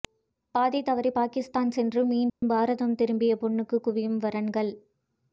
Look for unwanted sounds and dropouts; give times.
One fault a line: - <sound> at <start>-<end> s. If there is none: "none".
- dropout at 2.3-2.4 s